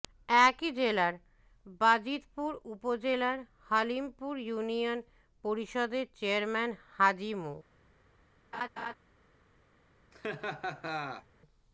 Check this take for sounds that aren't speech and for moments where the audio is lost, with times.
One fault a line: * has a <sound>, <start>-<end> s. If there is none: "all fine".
* has a laugh, 8.5-8.9 s
* has a laugh, 10.1-11.3 s